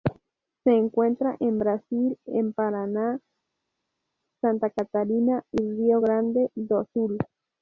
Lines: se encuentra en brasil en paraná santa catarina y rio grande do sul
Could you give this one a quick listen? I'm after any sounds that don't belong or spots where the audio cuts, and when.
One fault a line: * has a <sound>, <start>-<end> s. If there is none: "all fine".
all fine